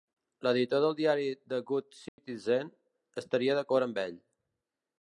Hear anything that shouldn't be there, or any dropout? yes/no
yes